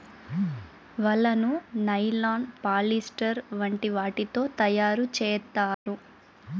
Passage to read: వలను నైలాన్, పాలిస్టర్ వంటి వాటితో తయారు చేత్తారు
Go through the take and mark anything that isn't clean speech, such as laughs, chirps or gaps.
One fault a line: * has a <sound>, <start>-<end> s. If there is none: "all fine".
* has a dropout, 5.7-5.9 s